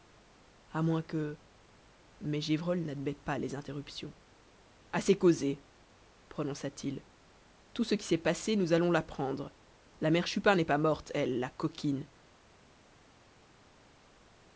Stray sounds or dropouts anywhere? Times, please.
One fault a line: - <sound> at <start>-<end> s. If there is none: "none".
none